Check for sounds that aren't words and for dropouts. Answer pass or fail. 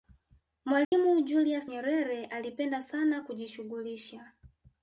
fail